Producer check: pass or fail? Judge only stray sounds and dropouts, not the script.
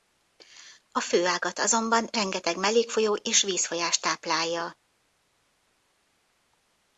pass